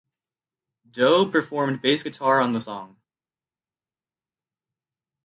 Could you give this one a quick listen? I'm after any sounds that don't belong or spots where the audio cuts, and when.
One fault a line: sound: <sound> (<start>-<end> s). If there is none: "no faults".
no faults